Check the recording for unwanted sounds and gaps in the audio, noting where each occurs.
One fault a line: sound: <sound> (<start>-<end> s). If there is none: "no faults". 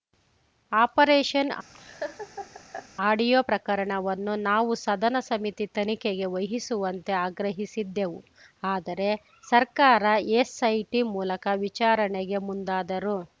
sound: laugh (1.7-2.9 s)